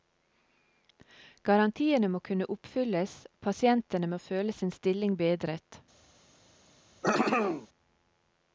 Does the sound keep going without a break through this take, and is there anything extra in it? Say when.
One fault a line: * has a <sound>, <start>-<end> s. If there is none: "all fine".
* has a throat clearing, 7.0-7.7 s